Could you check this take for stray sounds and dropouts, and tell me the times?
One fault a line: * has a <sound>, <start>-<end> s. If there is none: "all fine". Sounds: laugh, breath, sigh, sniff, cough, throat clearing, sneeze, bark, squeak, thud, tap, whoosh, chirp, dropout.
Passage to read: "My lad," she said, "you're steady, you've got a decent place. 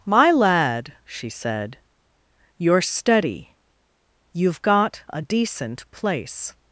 all fine